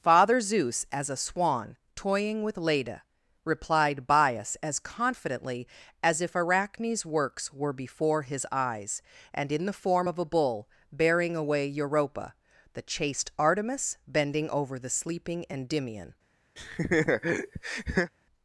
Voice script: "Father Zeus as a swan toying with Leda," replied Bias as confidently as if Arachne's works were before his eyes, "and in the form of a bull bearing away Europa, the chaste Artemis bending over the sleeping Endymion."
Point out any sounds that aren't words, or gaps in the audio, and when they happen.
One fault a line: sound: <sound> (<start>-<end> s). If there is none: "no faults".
sound: laugh (16.6-18.1 s)